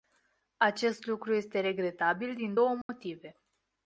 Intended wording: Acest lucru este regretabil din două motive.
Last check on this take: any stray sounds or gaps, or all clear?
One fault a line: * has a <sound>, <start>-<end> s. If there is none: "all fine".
* has a dropout, 2.8-2.9 s